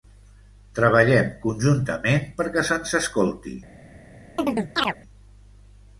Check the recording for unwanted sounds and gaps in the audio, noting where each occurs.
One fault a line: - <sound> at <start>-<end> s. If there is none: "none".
- chirp at 4.4-5.0 s